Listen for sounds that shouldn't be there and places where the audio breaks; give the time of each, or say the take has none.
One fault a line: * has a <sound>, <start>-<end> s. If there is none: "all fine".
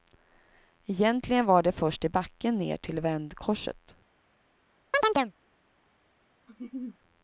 * has a chirp, 4.9-5.3 s
* has a laugh, 6.5-7.0 s